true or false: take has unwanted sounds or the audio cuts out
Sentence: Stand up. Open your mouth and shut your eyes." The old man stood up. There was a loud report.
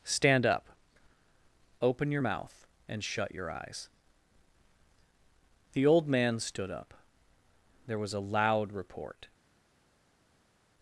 false